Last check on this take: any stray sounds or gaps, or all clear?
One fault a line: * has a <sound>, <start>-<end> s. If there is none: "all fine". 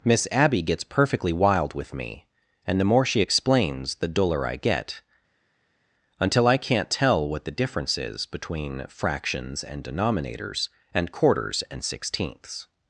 all fine